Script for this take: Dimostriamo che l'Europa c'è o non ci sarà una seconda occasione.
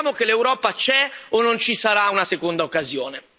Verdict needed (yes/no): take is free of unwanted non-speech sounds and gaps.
yes